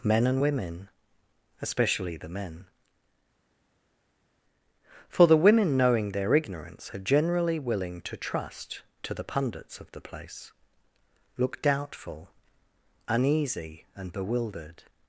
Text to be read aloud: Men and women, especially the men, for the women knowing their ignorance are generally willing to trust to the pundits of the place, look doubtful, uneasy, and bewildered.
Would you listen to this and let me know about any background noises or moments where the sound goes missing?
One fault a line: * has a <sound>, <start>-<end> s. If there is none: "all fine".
all fine